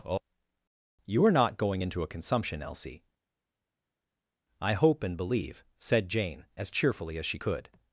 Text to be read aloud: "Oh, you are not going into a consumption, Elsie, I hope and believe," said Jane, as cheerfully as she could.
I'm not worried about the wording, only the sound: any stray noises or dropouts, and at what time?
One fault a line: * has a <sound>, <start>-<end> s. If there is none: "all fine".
all fine